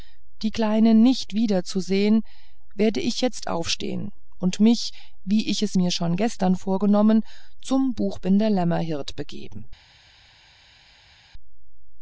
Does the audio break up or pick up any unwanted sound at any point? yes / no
no